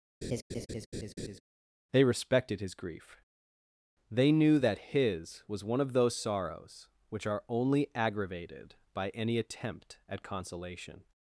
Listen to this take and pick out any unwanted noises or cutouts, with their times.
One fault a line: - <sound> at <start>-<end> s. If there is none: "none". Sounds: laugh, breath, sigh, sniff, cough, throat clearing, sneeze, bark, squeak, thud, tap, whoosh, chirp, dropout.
- laugh at 0.2-1.4 s